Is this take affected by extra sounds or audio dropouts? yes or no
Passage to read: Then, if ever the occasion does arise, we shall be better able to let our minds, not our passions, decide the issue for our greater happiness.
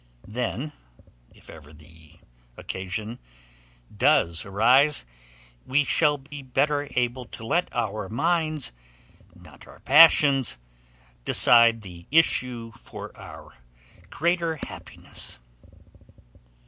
yes